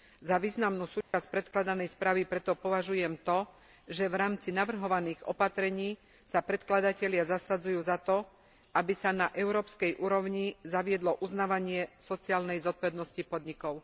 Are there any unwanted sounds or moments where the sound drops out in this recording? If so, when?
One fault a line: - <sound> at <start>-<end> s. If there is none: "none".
- dropout at 1.0-1.1 s